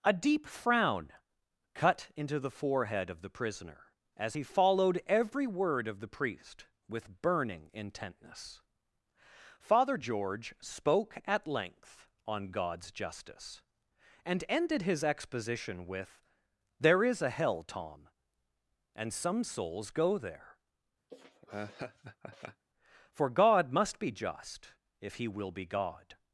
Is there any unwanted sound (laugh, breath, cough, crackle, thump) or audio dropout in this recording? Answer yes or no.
yes